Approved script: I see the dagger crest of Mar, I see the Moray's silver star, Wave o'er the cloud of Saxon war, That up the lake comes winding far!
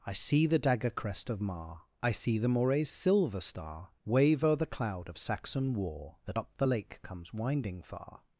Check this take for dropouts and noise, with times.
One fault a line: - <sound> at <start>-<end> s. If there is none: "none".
none